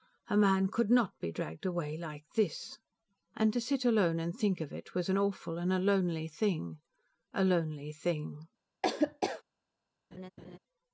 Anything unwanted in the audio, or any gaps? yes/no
yes